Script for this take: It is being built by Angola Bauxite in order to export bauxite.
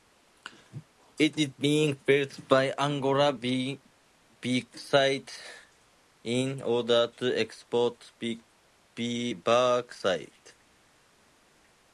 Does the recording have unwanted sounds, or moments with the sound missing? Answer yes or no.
no